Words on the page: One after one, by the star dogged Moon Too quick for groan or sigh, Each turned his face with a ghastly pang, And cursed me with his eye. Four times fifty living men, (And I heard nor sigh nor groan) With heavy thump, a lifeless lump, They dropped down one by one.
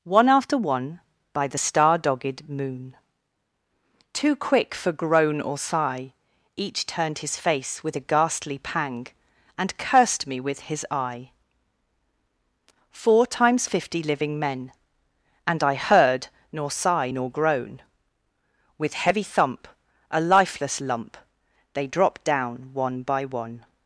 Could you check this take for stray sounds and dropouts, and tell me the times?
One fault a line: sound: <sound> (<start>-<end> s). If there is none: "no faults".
no faults